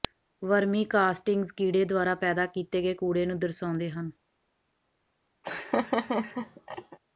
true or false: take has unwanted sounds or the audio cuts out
true